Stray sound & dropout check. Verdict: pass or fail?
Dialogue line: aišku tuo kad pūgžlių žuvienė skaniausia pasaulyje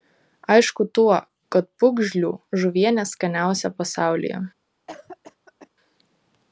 fail